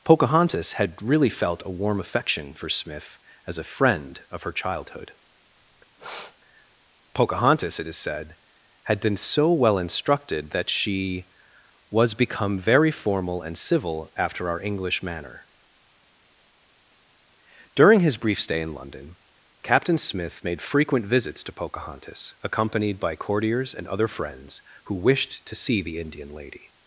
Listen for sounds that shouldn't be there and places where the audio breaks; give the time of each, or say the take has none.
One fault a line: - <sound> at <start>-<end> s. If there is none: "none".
- sniff at 6.0-6.4 s